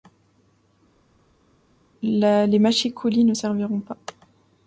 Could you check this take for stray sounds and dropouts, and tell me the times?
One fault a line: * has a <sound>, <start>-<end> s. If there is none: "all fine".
all fine